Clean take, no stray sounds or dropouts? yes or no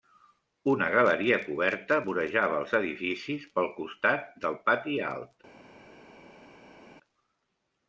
yes